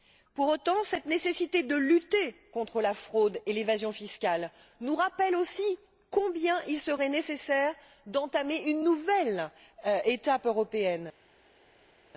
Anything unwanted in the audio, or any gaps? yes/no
no